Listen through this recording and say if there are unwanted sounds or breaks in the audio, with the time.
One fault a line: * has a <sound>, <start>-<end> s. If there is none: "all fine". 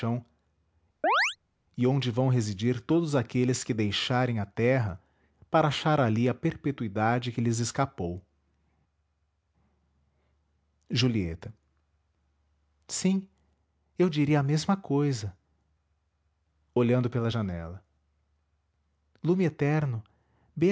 * has a chirp, 1.0-1.4 s